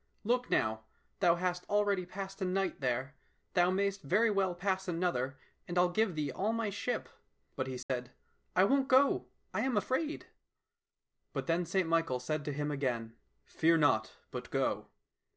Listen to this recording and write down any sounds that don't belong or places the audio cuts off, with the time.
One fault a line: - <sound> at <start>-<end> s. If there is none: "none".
- dropout at 7.8-7.9 s